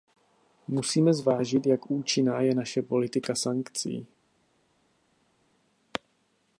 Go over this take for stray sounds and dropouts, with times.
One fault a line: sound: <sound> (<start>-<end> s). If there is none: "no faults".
no faults